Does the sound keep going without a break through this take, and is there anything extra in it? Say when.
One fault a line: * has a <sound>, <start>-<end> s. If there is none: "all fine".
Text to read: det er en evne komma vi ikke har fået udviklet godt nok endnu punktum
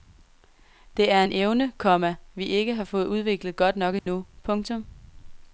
* has a dropout, 4.0-4.1 s